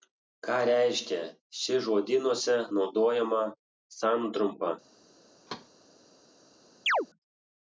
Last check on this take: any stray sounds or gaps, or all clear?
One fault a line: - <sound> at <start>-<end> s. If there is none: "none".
- thud at 5.5-5.7 s
- chirp at 6.9-7.1 s